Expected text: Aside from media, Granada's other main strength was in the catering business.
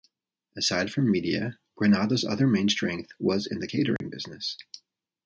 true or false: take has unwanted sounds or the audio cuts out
true